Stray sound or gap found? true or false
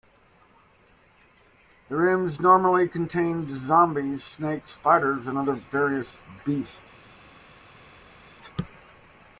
false